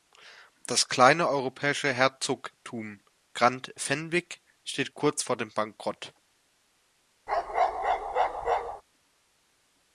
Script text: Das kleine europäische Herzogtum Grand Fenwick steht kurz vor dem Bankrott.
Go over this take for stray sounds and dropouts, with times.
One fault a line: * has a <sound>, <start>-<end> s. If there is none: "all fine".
* has a bark, 7.3-8.8 s